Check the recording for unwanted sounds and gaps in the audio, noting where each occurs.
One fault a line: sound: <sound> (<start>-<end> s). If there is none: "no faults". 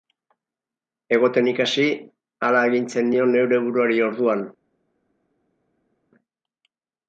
no faults